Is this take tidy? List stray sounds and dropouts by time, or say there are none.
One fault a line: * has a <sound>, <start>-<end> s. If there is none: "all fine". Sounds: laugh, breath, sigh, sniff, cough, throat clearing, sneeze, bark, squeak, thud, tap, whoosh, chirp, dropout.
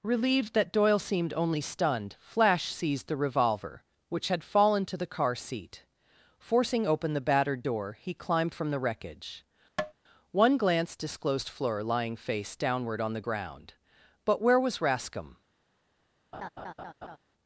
* has a tap, 9.8-9.9 s
* has a laugh, 16.3-17.2 s